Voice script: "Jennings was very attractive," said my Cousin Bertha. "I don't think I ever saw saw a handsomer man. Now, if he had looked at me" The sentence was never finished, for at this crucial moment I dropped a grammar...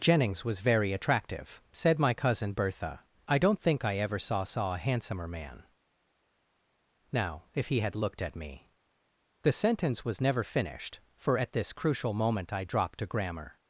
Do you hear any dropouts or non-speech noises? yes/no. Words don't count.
no